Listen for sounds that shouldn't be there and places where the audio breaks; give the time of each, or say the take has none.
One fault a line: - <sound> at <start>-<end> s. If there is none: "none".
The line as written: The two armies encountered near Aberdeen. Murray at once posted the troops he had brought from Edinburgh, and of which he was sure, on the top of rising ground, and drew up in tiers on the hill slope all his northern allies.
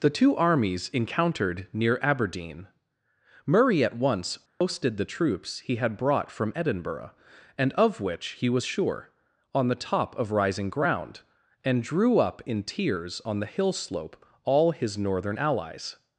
- dropout at 4.5-4.6 s